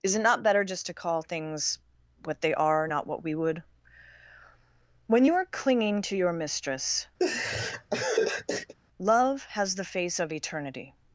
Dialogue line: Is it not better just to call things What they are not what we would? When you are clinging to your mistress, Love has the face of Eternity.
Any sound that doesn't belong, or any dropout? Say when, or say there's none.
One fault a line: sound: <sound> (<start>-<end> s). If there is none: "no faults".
sound: laugh (7.2-8.7 s)